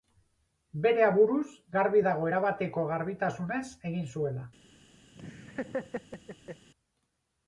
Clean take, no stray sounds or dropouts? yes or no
no